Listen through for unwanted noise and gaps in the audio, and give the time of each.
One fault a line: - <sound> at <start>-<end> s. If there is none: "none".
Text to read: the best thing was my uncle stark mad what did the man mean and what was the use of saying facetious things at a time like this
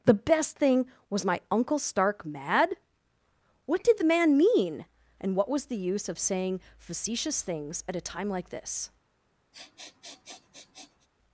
- sniff at 9.5-11.1 s